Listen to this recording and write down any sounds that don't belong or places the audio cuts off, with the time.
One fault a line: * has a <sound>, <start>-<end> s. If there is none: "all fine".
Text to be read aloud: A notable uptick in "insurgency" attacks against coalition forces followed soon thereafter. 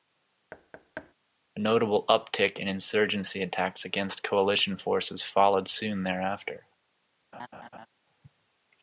* has a thud, 0.5-1.1 s
* has a laugh, 7.3-7.9 s